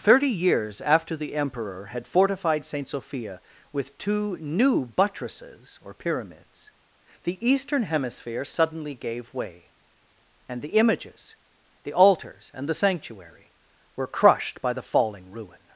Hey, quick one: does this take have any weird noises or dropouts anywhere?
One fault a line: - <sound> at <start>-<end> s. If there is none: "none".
none